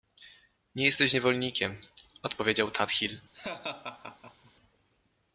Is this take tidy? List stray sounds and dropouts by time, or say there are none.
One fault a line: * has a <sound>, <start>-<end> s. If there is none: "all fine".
* has a laugh, 3.3-4.5 s